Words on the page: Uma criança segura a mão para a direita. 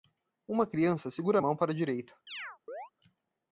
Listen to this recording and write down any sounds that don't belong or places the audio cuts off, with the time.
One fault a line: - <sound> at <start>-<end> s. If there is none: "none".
- chirp at 2.3-2.9 s